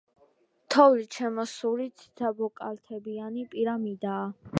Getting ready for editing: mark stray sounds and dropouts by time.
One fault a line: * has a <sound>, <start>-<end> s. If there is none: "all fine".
all fine